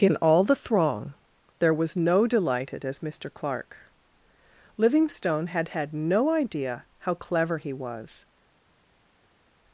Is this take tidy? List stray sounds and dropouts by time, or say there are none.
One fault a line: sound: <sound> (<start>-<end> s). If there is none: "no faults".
no faults